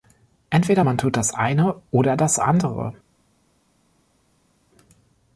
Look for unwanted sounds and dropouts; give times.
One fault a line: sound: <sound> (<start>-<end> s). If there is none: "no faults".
no faults